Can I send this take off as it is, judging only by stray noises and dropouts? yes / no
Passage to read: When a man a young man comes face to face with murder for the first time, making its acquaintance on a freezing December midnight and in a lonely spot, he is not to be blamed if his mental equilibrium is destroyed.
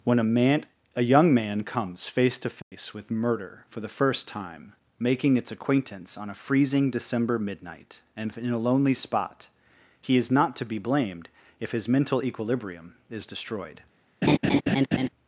no